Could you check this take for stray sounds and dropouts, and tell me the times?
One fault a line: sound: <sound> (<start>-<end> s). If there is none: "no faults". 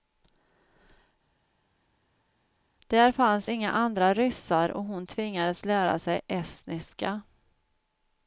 no faults